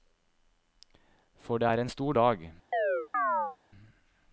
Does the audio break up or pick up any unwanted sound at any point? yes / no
yes